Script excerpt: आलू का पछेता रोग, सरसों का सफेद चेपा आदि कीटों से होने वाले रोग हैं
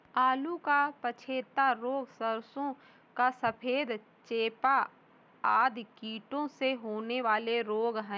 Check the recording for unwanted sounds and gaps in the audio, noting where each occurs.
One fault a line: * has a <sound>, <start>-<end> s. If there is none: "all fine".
all fine